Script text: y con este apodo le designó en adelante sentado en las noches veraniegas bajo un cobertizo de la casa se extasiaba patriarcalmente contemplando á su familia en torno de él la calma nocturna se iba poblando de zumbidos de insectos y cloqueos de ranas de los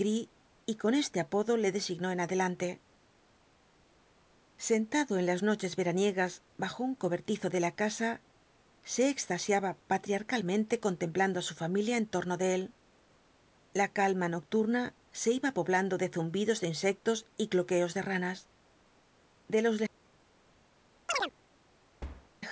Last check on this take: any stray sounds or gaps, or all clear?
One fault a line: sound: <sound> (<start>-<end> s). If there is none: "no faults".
sound: chirp (21.1-21.3 s)
sound: thud (22.0-22.3 s)